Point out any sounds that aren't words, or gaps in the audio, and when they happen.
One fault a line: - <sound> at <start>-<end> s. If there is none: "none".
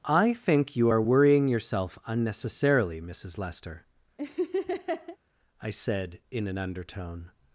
- laugh at 4.2-5.2 s